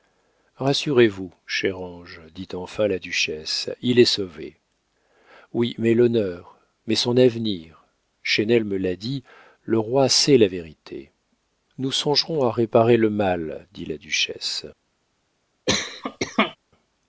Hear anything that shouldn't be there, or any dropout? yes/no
yes